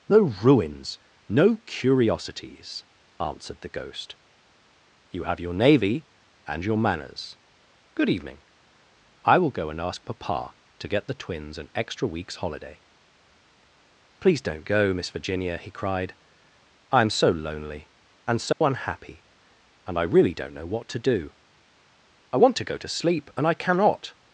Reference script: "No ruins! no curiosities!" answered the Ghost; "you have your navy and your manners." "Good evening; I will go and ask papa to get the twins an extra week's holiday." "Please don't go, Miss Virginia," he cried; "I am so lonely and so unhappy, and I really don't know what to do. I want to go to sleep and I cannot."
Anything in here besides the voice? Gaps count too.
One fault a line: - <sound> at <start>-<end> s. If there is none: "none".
- dropout at 18.5-18.6 s